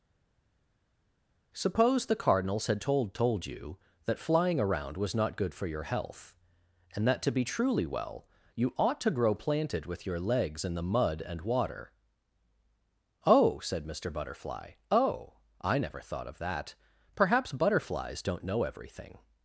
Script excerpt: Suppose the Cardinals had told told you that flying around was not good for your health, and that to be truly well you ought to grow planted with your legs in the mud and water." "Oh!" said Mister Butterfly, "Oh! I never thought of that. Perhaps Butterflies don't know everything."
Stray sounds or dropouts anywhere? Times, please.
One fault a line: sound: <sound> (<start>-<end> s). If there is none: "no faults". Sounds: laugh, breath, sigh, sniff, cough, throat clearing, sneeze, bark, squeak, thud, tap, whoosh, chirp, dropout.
no faults